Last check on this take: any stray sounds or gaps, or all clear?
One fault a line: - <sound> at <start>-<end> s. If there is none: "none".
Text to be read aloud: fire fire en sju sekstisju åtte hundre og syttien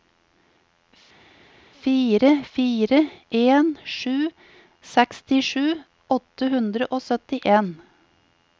none